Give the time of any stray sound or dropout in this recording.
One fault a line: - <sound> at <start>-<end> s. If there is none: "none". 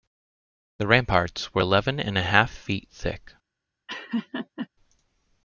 - laugh at 3.9-4.7 s